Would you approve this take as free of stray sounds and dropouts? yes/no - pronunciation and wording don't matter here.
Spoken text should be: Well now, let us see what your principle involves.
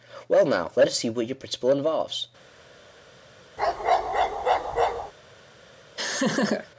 no